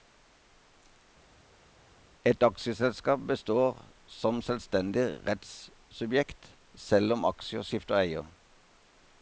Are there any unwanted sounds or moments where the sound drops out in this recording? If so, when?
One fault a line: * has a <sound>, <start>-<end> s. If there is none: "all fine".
all fine